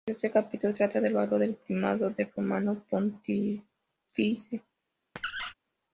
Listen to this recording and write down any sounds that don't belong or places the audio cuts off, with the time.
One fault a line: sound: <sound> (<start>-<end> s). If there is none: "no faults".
sound: squeak (5.2-5.5 s)